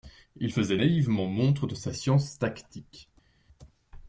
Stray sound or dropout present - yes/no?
no